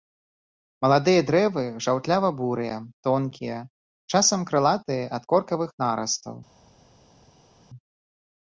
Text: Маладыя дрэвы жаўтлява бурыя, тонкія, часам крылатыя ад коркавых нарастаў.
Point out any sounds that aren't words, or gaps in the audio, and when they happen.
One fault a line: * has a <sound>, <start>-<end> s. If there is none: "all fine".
all fine